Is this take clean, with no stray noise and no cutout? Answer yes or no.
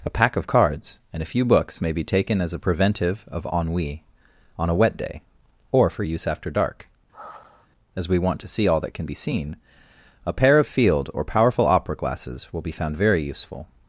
no